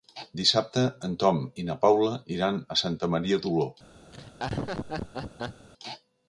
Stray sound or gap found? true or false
true